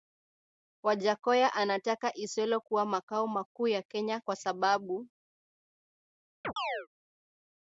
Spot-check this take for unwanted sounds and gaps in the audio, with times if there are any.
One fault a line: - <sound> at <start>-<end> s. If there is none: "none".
- chirp at 6.4-6.9 s